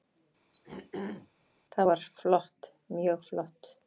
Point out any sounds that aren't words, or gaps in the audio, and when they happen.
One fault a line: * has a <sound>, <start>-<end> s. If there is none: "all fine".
* has a throat clearing, 0.5-1.3 s